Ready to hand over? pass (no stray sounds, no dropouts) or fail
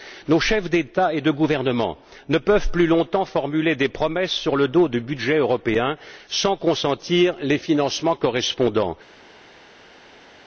pass